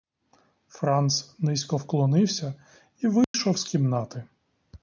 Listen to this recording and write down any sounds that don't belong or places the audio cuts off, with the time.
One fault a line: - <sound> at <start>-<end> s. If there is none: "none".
- dropout at 3.2-3.3 s